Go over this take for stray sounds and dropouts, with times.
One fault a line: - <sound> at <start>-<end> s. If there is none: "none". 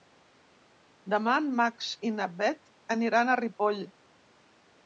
none